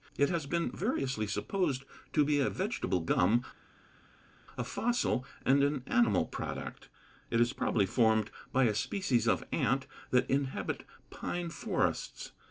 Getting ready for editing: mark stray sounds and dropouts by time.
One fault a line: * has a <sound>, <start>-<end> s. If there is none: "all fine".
all fine